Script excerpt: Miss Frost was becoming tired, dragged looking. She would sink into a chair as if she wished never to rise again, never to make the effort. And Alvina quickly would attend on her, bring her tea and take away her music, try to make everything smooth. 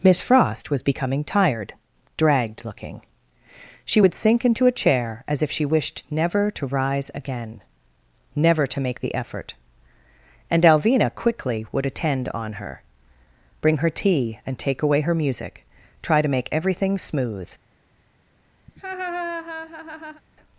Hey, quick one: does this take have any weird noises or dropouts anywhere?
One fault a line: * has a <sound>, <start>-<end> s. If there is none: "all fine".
* has a laugh, 18.7-20.2 s